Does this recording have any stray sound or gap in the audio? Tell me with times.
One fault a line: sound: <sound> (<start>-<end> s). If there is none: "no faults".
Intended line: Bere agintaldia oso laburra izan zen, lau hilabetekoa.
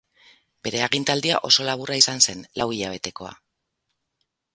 no faults